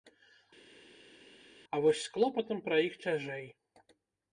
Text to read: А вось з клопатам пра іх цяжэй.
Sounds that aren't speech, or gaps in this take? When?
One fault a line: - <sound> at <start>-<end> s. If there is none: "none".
none